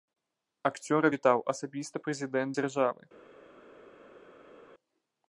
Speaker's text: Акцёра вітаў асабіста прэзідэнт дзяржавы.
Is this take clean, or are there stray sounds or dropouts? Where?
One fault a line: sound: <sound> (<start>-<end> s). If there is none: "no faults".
no faults